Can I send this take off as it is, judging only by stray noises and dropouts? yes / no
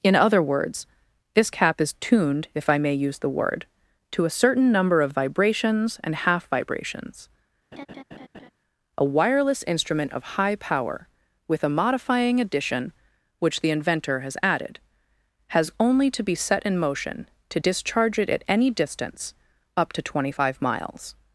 no